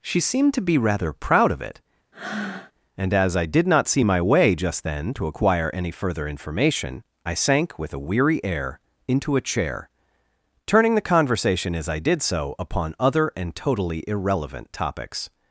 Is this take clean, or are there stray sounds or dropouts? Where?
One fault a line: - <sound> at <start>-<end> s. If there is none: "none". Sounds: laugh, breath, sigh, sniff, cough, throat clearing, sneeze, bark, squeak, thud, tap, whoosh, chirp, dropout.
- breath at 2.1-2.7 s